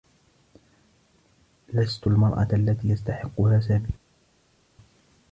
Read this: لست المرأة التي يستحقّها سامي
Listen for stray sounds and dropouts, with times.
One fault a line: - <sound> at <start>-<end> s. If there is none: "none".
none